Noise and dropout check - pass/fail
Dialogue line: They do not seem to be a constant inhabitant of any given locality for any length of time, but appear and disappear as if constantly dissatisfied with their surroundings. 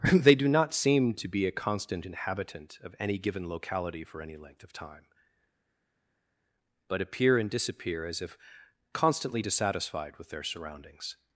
pass